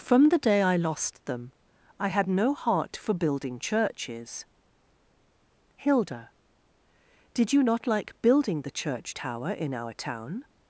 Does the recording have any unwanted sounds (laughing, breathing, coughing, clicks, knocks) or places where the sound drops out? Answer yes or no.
no